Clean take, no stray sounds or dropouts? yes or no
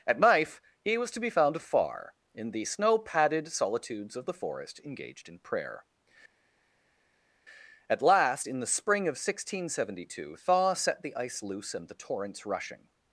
yes